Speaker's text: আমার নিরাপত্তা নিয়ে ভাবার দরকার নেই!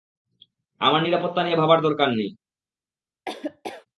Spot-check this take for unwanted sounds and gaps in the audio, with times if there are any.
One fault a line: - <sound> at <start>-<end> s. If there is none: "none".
- laugh at 3.3-3.9 s